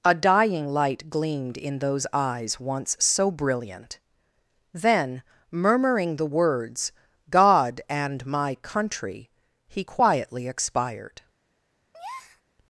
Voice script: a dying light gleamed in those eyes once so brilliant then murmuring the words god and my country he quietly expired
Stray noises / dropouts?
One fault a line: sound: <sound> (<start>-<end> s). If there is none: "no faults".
sound: breath (11.9-12.4 s)